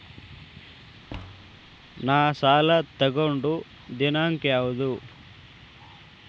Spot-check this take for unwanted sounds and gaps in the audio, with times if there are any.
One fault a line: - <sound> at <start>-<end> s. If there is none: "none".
- thud at 1.1-1.7 s